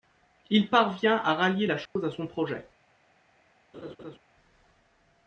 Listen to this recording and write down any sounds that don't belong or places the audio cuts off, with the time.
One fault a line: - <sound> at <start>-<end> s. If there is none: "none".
- dropout at 1.9-2.0 s
- laugh at 3.7-4.2 s